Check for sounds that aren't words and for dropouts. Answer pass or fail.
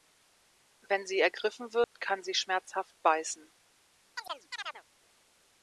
fail